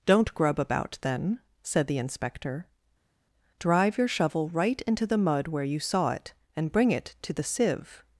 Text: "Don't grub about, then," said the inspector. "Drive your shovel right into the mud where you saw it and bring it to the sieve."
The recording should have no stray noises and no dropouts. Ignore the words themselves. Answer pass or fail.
pass